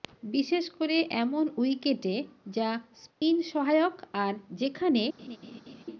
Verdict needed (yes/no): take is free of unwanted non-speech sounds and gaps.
no